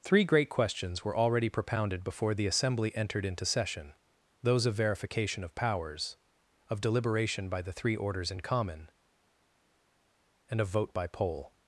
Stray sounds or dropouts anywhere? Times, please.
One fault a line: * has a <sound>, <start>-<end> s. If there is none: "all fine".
all fine